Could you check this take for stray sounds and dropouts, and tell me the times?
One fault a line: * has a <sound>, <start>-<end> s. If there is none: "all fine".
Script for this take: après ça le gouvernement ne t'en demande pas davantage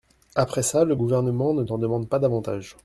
all fine